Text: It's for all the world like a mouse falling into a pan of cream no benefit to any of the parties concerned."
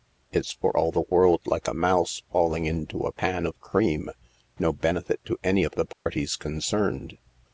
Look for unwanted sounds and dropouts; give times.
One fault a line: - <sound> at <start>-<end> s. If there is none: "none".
- dropout at 5.9-6.1 s